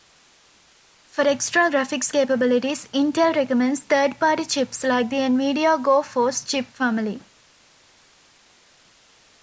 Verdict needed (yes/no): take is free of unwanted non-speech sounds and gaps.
yes